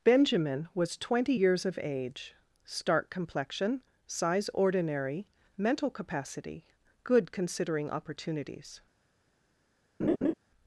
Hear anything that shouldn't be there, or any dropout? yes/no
yes